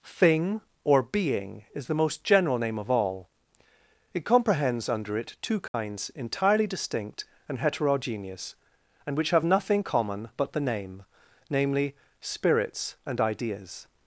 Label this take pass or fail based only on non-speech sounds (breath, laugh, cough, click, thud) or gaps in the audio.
fail